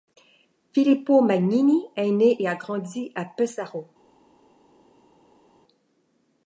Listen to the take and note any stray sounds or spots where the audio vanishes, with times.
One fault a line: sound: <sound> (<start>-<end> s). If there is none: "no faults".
no faults